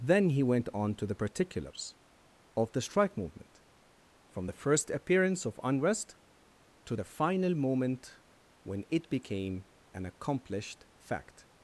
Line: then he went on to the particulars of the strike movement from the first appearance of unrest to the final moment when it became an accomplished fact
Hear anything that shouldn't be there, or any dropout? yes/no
no